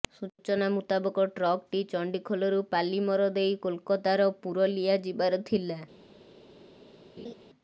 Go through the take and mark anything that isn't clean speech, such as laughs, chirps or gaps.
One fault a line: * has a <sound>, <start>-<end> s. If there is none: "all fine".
* has a laugh, 7.2-7.3 s